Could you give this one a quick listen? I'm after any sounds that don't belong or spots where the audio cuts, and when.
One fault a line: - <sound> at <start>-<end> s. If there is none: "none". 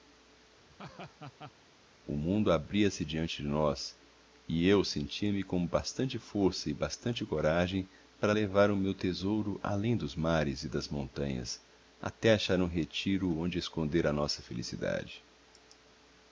- laugh at 0.7-1.5 s